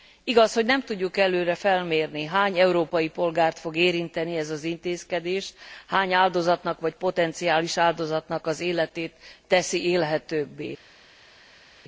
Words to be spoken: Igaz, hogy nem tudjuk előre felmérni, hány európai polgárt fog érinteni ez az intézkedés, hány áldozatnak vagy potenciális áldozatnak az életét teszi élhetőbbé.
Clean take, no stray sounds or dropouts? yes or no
yes